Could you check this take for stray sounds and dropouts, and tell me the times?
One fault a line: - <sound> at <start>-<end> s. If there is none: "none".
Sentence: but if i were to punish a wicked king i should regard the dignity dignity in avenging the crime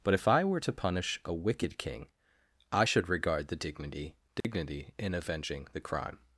- dropout at 4.4-4.4 s